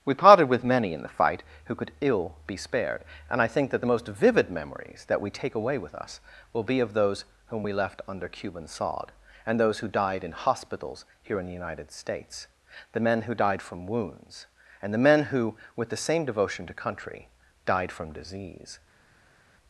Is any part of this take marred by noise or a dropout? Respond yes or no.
no